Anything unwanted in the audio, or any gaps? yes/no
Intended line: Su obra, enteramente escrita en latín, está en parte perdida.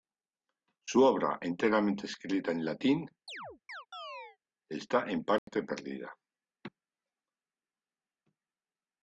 yes